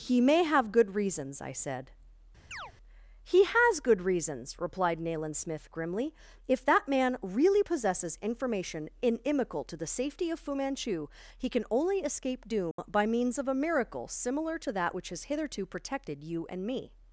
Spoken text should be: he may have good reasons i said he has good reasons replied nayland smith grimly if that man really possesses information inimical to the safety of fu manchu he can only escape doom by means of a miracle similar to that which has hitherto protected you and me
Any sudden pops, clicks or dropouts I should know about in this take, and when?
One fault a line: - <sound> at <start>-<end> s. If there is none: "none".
- chirp at 2.5-2.7 s
- dropout at 12.7-12.8 s